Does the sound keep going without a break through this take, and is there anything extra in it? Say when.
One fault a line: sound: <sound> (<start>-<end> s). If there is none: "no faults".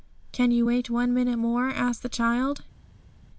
no faults